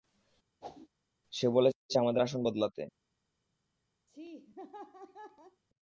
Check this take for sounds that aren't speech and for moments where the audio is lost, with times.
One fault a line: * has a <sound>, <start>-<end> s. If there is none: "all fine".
* has a whoosh, 0.6-0.9 s
* has a laugh, 4.1-5.6 s